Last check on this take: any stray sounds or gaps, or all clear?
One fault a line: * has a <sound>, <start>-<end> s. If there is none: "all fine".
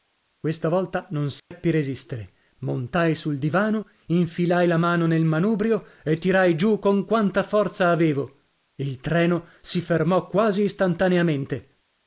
* has a dropout, 1.4-1.5 s